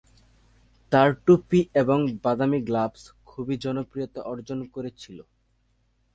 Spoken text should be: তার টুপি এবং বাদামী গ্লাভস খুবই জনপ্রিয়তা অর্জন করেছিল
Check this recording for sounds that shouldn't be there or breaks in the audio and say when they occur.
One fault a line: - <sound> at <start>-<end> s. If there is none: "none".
none